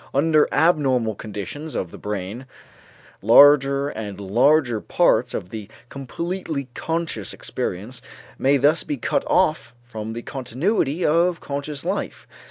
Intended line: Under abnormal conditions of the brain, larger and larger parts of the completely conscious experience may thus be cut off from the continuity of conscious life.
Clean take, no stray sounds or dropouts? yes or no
yes